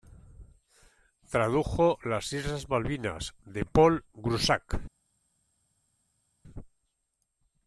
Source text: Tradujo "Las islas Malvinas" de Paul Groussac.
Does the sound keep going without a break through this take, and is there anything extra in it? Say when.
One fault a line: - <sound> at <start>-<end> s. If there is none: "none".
none